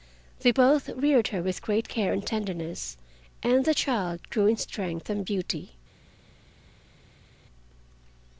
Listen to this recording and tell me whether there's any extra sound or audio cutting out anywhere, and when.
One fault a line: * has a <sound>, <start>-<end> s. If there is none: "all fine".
all fine